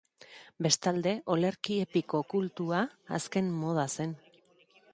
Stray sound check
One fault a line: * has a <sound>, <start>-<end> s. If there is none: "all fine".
all fine